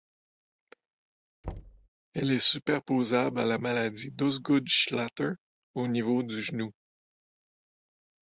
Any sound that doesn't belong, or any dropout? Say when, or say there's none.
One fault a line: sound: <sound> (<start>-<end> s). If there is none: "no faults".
sound: thud (1.4-1.9 s)